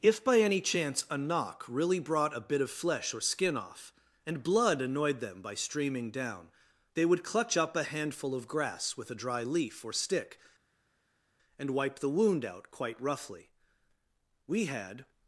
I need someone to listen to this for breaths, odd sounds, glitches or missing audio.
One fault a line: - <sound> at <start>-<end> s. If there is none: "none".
none